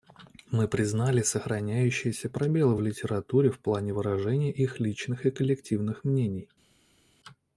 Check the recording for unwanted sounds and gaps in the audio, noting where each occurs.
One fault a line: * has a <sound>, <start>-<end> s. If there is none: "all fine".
all fine